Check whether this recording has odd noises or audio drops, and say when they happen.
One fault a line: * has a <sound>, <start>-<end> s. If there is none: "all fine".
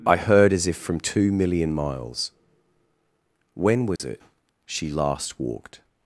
* has a dropout, 4.0-4.0 s